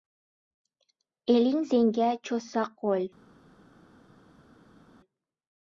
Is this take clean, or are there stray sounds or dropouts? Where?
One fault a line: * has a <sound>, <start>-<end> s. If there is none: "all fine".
all fine